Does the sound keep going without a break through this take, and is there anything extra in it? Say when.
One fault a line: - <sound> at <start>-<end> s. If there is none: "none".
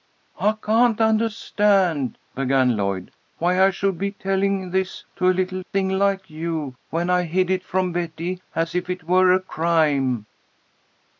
none